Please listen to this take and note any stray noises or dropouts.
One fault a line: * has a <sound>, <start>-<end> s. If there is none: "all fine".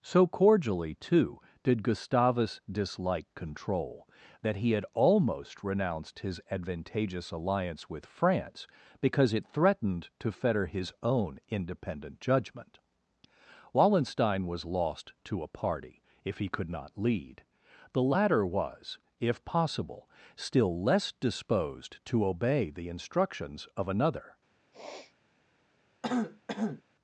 * has a sniff, 24.7-25.1 s
* has a throat clearing, 26.0-26.8 s